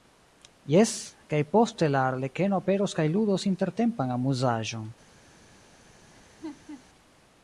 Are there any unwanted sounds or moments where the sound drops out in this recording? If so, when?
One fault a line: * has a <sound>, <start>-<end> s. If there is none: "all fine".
* has a laugh, 6.1-6.8 s